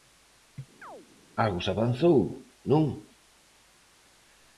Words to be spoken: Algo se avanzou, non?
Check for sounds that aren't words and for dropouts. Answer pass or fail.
fail